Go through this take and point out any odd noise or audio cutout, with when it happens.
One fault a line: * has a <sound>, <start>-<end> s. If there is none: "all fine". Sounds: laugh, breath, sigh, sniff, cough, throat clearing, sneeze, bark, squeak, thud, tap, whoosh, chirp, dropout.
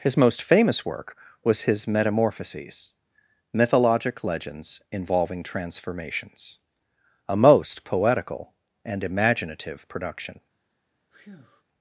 * has a breath, 11.1-11.6 s